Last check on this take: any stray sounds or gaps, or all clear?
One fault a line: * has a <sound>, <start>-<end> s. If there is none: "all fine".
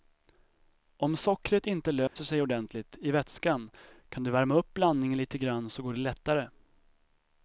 * has a dropout, 2.1-2.2 s